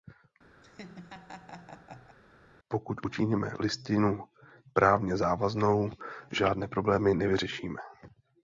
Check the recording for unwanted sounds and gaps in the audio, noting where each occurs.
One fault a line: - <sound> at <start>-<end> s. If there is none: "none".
- laugh at 0.6-2.2 s